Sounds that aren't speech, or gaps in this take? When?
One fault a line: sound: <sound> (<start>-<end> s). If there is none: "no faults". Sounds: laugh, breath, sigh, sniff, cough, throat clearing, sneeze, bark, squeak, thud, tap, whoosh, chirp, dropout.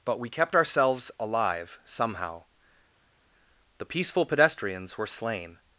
no faults